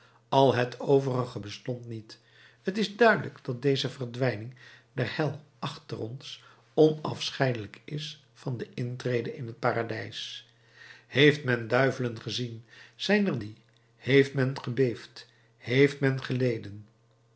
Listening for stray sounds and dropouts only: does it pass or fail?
pass